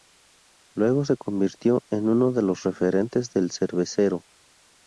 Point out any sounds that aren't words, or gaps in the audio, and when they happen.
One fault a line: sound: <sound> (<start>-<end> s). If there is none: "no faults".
no faults